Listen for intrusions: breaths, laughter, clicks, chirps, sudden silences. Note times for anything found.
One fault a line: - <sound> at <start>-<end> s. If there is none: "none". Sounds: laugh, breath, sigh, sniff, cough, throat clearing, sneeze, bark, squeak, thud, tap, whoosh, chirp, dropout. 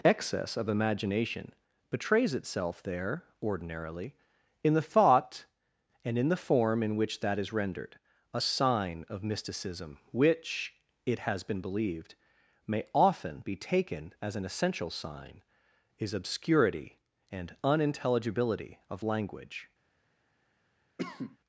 - cough at 21.0-21.4 s